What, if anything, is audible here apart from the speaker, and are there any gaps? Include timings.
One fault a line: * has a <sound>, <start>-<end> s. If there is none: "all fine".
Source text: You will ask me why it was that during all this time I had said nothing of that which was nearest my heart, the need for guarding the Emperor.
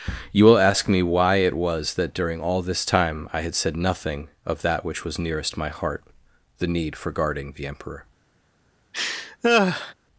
* has a laugh, 8.9-9.9 s